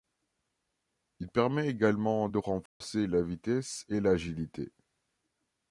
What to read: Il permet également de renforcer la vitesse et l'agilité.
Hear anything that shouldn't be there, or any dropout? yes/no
yes